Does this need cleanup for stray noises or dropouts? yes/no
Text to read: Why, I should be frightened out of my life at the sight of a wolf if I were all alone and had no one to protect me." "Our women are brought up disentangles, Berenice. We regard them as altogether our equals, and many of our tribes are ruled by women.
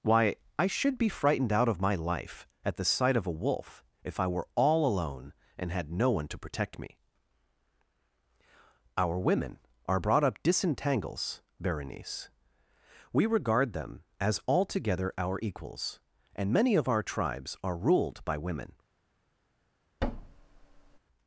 yes